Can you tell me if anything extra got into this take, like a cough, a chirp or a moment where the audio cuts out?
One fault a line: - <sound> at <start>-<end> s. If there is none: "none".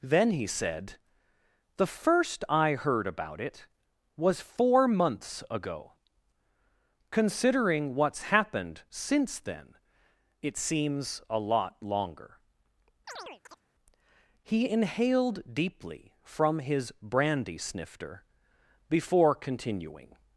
- chirp at 13.1-13.6 s